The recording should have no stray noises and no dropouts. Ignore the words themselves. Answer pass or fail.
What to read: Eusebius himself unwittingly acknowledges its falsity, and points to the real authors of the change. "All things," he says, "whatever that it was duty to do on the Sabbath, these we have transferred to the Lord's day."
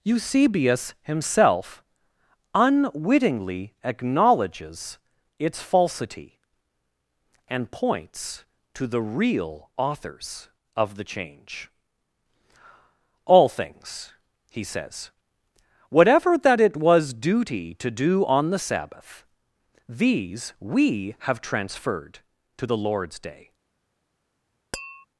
fail